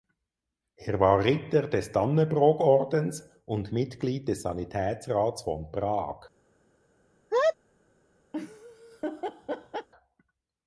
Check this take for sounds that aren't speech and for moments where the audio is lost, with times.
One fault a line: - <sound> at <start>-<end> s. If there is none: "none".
- sneeze at 7.3-7.6 s
- laugh at 8.3-9.9 s